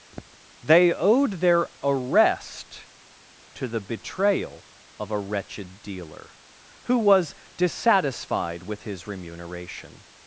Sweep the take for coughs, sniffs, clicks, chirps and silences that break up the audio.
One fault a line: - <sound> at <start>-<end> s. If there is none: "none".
- throat clearing at 0.1-0.4 s